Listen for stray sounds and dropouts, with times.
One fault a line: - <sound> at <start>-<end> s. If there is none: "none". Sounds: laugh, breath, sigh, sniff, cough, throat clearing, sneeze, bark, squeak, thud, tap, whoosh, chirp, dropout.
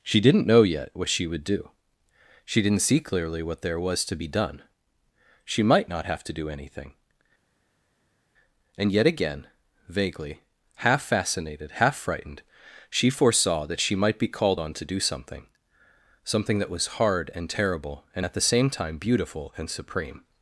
none